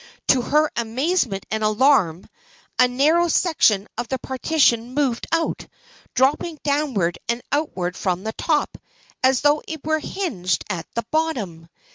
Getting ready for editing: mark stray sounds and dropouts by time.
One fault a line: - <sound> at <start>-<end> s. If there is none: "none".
none